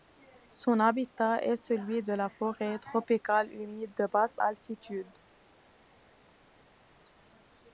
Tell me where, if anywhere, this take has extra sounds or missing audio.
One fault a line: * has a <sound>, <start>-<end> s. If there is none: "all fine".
all fine